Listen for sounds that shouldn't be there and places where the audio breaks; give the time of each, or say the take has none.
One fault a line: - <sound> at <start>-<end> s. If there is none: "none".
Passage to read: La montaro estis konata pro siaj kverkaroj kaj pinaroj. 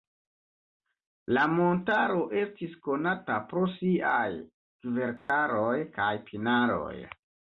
- dropout at 5.2-5.3 s